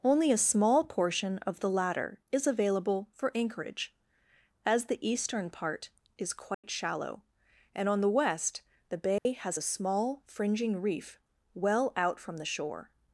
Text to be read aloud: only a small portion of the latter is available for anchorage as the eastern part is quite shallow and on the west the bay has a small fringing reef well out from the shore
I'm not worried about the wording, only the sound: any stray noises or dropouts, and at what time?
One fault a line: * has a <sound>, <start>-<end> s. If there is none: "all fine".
* has a dropout, 6.5-6.6 s
* has a dropout, 9.2-9.3 s